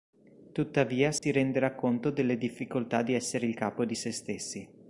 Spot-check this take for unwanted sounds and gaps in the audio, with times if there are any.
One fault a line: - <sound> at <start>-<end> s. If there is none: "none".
- dropout at 1.2-1.2 s